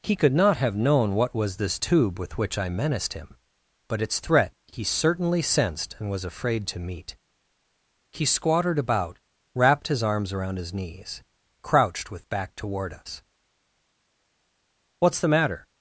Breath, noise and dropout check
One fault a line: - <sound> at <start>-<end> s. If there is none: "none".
none